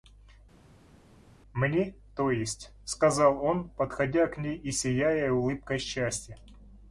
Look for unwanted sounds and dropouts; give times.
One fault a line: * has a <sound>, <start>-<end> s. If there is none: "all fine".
all fine